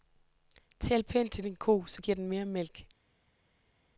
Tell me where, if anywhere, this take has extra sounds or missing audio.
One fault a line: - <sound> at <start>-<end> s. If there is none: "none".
none